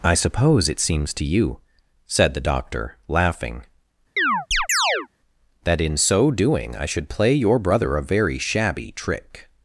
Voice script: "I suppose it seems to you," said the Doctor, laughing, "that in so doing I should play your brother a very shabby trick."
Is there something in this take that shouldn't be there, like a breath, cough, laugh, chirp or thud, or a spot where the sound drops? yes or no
yes